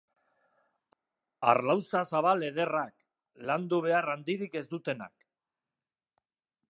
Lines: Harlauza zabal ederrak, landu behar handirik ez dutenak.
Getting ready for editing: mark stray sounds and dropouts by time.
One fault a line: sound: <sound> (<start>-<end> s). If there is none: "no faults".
no faults